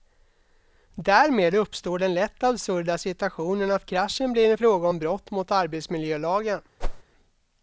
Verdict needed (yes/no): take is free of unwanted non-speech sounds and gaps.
no